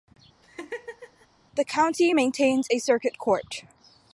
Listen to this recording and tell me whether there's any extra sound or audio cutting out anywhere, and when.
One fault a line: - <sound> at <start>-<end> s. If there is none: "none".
- laugh at 0.4-1.3 s